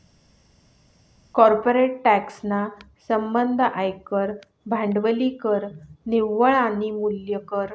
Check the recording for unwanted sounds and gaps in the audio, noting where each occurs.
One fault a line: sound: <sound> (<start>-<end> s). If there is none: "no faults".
no faults